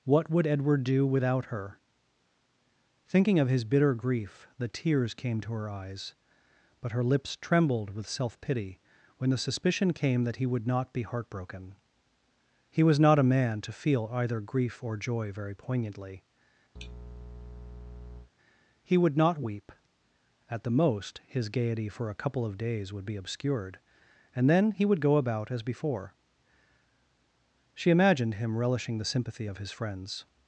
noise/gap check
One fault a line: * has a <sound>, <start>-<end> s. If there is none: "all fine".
* has a sneeze, 16.8-18.3 s